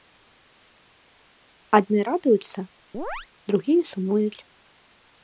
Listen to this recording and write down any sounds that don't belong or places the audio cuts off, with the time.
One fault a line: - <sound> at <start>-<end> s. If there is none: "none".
- chirp at 2.9-3.3 s